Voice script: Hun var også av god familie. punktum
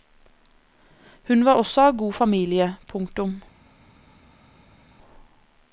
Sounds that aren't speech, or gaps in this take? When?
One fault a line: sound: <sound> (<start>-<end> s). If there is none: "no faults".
no faults